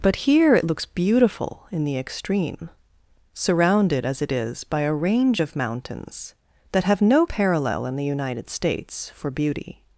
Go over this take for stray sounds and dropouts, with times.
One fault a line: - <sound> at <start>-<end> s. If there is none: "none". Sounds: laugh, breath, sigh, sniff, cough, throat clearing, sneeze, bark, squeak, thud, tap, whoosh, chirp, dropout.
none